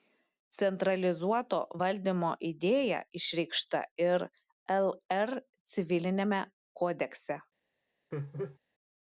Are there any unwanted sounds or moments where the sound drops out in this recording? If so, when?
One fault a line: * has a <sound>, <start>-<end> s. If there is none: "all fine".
* has a laugh, 8.1-8.6 s